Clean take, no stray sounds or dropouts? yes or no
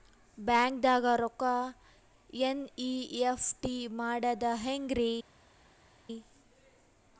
yes